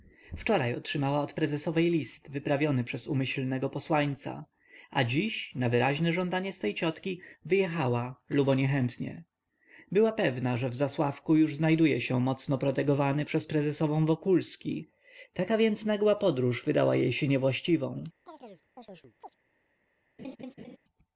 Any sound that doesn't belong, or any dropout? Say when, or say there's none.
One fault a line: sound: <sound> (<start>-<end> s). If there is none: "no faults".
sound: chirp (18.3-19.4 s)
sound: laugh (20.2-20.8 s)